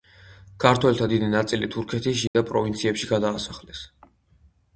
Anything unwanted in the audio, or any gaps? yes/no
yes